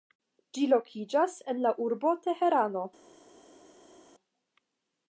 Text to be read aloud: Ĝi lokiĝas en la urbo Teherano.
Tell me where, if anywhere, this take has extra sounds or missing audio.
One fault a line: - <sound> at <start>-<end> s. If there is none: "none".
none